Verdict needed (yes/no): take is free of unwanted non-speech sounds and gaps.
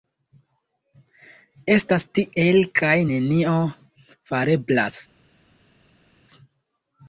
yes